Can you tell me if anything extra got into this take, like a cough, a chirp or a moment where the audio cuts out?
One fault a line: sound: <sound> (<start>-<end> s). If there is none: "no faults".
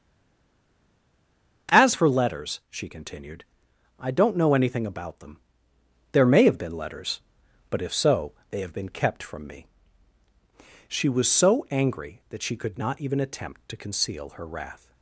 no faults